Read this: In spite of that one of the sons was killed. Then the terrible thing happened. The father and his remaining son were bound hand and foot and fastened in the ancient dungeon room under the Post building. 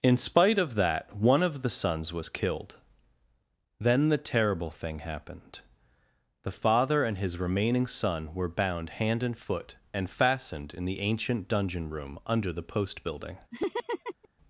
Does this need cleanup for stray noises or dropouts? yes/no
yes